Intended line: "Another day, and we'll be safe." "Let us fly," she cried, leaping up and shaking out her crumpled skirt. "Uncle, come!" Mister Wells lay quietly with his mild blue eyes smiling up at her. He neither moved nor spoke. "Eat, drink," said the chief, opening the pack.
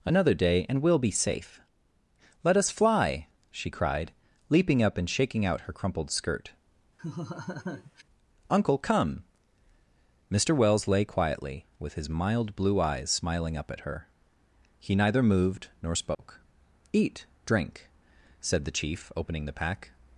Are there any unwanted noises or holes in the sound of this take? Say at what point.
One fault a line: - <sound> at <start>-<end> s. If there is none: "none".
- laugh at 7.0-8.0 s
- dropout at 16.1-16.2 s